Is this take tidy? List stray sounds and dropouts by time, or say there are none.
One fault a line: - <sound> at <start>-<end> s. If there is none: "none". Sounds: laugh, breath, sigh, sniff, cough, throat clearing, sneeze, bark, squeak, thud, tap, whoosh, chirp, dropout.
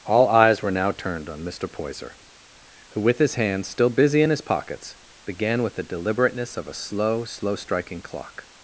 none